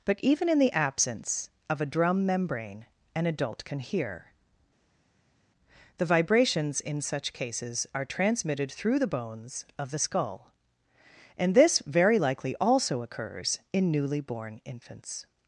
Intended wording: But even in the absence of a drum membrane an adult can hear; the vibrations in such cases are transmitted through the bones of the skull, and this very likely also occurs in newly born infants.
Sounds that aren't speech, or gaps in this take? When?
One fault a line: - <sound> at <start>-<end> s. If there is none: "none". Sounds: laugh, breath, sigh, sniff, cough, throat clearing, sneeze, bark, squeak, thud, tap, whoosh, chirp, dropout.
none